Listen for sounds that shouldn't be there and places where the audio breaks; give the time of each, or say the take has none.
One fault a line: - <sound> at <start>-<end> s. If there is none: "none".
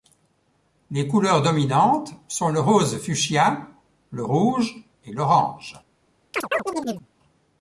- chirp at 6.3-7.1 s